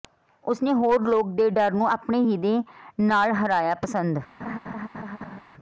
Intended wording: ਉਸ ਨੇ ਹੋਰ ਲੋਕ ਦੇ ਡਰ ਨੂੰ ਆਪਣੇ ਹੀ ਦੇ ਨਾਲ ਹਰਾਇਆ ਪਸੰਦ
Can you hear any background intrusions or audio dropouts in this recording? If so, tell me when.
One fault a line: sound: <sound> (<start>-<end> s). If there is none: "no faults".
sound: laugh (4.4-5.4 s)